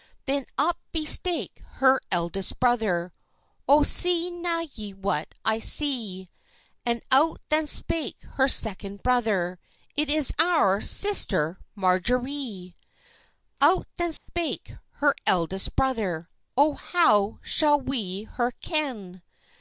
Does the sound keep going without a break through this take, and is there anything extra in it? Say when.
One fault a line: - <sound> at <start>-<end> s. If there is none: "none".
- dropout at 14.2-14.3 s